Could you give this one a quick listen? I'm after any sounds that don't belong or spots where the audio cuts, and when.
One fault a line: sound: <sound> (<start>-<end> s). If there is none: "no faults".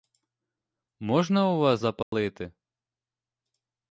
sound: dropout (2.0-2.1 s)